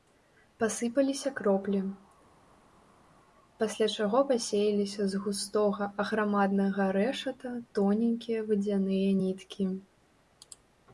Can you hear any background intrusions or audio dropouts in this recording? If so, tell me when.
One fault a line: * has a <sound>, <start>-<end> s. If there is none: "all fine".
all fine